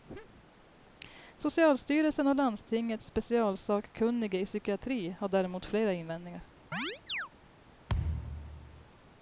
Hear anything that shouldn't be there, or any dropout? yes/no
yes